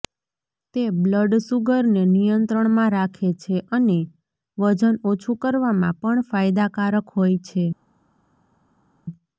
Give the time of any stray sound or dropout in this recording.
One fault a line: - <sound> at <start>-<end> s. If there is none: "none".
none